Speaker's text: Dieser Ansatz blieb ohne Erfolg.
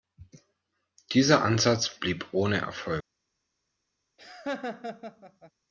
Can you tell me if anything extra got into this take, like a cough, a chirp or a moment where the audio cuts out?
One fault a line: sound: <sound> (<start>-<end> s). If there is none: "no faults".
sound: laugh (4.2-5.5 s)